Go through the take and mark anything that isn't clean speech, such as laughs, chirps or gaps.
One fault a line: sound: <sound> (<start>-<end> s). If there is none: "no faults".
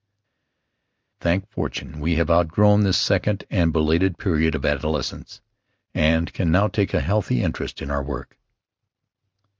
no faults